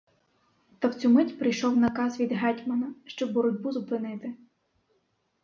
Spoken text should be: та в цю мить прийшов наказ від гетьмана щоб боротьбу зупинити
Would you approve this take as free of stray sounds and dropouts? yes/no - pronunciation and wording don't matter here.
yes